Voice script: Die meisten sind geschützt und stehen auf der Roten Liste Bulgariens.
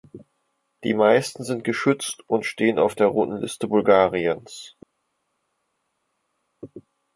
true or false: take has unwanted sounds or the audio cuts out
false